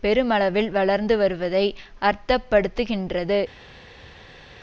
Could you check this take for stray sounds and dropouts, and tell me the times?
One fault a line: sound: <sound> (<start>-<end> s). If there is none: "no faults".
no faults